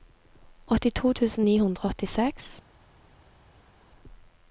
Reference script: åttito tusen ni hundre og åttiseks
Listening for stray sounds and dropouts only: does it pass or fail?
pass